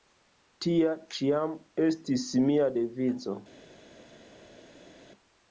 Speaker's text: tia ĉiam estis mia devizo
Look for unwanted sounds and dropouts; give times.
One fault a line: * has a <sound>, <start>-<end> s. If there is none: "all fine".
all fine